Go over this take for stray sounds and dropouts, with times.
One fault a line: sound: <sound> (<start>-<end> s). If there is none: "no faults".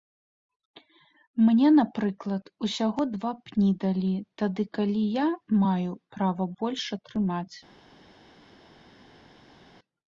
no faults